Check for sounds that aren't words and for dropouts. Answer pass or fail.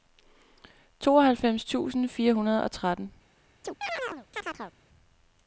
fail